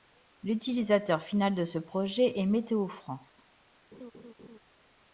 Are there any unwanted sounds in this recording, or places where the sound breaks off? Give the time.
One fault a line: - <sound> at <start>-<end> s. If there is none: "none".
- laugh at 3.9-4.6 s